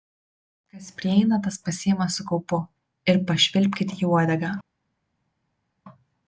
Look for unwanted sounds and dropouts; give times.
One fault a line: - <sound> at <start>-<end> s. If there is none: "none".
none